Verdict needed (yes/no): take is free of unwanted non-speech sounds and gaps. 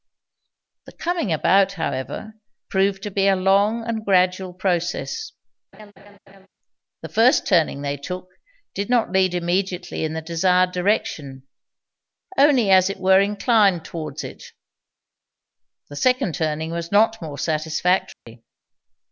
no